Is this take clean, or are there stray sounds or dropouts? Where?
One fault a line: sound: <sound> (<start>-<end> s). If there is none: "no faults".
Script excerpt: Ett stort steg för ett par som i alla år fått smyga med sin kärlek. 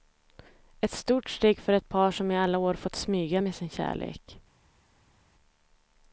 no faults